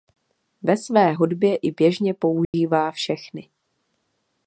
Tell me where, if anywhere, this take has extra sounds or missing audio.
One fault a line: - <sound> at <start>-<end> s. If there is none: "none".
- dropout at 2.4-2.5 s